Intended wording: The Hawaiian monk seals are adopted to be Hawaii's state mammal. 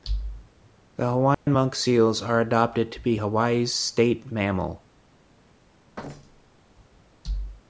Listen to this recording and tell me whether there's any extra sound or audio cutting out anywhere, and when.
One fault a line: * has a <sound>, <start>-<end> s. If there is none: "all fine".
* has a dropout, 1.3-1.5 s
* has a thud, 6.0-6.6 s